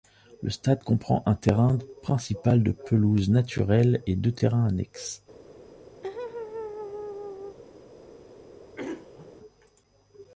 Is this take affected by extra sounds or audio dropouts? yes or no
yes